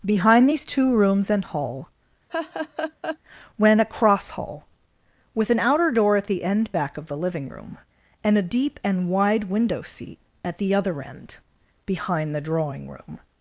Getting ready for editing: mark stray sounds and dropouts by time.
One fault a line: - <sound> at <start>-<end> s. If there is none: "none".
- laugh at 2.3-3.2 s